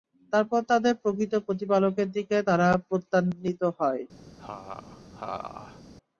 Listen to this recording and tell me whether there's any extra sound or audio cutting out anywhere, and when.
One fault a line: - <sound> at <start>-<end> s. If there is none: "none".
- laugh at 4.4-5.8 s